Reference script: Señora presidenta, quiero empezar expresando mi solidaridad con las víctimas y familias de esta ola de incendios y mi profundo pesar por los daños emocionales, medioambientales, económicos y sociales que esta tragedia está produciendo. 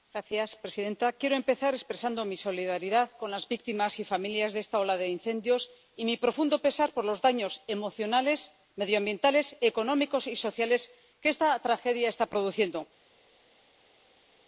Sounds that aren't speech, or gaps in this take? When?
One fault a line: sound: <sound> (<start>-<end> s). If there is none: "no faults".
no faults